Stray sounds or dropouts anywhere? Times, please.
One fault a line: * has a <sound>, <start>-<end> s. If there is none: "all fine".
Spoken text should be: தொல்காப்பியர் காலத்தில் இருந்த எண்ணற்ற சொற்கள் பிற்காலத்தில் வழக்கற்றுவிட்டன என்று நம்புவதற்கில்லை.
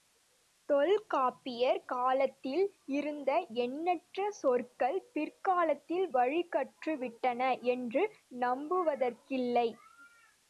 all fine